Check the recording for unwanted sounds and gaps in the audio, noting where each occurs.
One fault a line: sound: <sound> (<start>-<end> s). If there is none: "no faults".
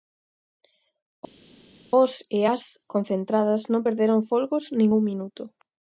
no faults